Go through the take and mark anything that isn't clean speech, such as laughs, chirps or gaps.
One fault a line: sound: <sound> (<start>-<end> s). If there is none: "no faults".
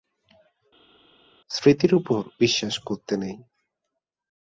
no faults